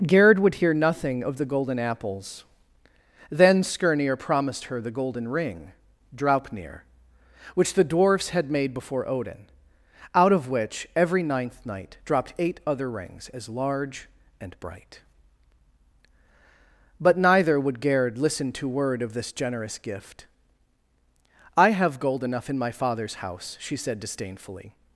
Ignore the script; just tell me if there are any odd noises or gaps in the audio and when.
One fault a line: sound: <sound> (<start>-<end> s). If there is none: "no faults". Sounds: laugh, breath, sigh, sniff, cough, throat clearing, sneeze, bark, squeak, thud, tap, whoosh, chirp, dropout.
no faults